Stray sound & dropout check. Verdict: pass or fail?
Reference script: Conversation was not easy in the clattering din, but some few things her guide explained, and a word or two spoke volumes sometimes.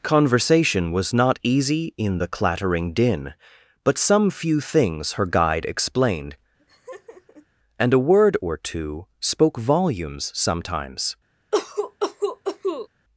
fail